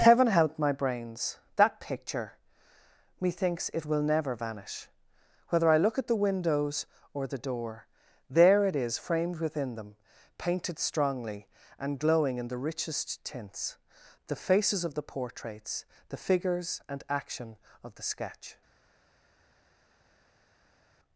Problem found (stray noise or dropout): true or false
false